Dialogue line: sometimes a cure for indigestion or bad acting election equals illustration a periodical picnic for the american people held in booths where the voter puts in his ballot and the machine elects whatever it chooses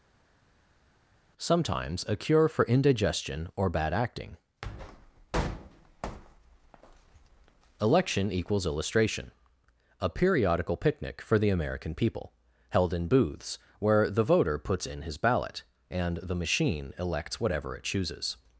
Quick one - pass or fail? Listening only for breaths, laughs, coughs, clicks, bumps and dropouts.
pass